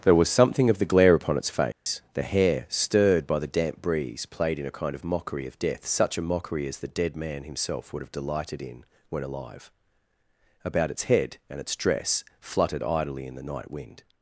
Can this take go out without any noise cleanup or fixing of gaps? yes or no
no